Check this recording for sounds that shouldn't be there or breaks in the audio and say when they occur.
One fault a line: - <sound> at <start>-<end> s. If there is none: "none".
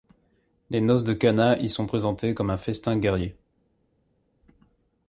none